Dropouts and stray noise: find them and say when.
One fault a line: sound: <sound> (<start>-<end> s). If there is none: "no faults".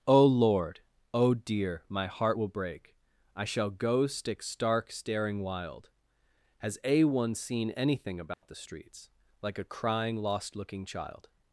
sound: dropout (8.3-8.4 s)